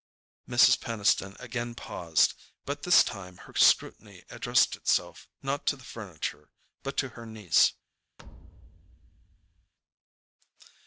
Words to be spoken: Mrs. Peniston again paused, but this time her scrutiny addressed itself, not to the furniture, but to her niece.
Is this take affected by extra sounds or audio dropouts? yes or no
yes